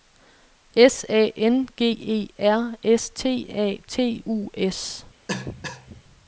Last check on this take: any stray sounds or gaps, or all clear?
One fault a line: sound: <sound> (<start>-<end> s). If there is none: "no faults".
sound: cough (5.3-6.0 s)